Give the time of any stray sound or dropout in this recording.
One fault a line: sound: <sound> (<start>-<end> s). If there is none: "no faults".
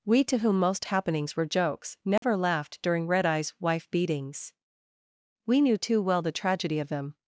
sound: dropout (2.2-2.2 s)